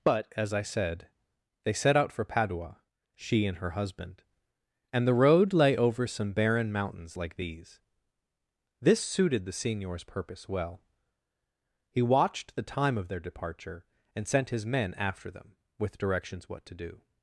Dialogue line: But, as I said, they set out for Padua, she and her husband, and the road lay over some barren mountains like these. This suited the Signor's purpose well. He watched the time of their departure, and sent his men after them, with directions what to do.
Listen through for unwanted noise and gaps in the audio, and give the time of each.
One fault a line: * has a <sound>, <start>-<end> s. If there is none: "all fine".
all fine